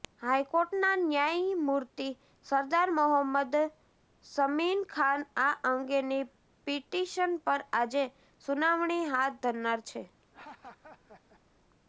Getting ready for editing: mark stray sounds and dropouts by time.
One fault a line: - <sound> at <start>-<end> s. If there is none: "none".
- laugh at 10.2-11.4 s